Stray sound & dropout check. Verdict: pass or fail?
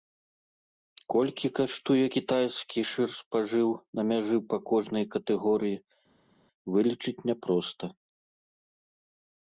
pass